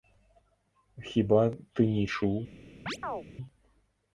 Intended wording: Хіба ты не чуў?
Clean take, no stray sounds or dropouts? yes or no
no